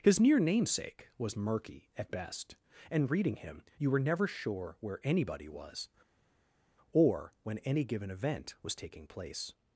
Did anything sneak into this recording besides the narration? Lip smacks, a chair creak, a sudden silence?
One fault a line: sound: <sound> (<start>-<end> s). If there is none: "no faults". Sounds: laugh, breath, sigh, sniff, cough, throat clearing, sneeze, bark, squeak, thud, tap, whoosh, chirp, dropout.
no faults